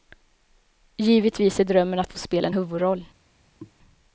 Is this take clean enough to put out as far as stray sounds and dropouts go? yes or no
no